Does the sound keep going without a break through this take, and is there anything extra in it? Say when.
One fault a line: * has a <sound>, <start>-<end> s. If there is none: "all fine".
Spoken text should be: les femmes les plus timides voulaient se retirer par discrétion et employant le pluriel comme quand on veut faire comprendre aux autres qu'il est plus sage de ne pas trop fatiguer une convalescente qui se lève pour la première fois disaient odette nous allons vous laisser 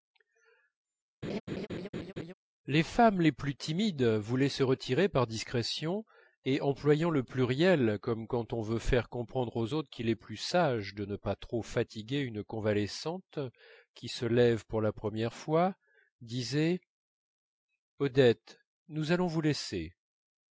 * has a laugh, 1.2-2.3 s